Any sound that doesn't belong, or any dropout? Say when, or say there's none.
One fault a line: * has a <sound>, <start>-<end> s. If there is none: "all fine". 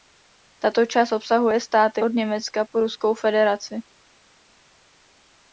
all fine